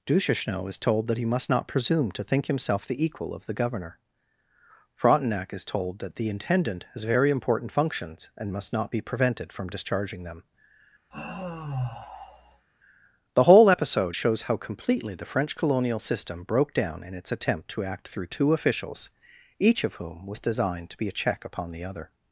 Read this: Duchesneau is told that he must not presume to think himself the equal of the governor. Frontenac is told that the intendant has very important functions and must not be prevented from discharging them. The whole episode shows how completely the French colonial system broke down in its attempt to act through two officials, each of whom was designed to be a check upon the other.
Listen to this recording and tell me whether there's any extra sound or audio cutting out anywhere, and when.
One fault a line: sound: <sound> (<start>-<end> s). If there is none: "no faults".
sound: sigh (11.1-12.7 s)